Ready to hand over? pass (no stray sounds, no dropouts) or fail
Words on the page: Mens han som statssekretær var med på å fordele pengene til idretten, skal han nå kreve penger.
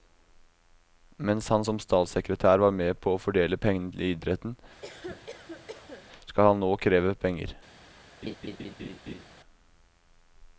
fail